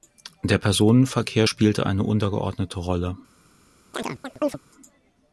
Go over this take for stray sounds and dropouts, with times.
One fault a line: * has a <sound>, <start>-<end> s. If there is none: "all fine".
* has a chirp, 3.9-4.6 s